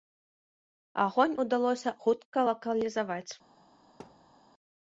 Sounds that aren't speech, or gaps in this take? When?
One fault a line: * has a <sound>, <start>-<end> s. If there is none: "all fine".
* has a thud, 4.0-4.3 s